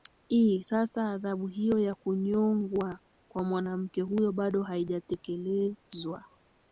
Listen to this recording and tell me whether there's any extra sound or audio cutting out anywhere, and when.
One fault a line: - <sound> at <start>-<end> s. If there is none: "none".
none